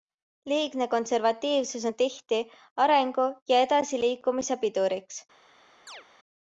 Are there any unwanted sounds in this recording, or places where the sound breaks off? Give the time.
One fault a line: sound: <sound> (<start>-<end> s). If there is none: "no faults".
sound: chirp (5.9-6.0 s)